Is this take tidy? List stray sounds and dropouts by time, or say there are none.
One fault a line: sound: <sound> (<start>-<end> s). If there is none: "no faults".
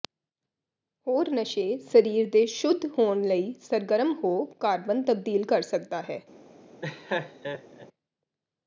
sound: laugh (6.8-7.9 s)